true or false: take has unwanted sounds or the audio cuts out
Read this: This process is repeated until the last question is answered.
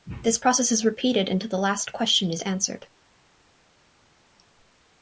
false